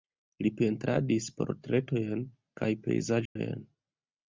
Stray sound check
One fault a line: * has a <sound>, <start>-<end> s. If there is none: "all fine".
* has a dropout, 3.3-3.4 s